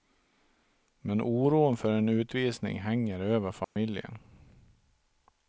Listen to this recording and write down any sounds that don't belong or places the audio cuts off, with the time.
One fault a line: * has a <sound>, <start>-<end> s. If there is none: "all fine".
* has a dropout, 3.6-3.8 s